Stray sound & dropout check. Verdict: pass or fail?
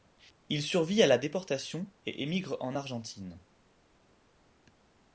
pass